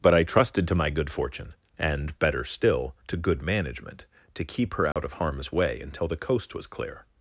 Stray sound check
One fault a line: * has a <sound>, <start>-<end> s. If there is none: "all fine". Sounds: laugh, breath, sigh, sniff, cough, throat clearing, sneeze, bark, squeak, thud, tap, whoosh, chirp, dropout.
* has a dropout, 4.9-5.0 s